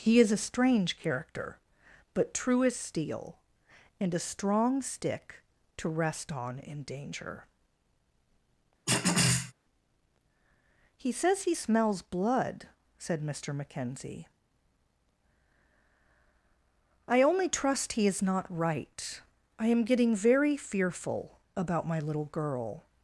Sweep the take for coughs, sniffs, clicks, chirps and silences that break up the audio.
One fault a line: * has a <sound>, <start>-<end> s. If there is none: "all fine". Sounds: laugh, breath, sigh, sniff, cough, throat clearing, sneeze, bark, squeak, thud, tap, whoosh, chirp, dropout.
* has a throat clearing, 8.9-9.5 s